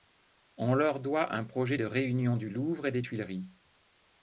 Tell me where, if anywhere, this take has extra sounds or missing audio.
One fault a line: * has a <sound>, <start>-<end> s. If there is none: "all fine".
all fine